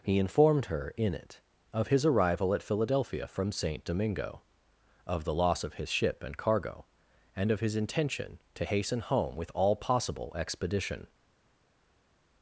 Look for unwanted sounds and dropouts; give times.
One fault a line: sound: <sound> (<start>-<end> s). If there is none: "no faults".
no faults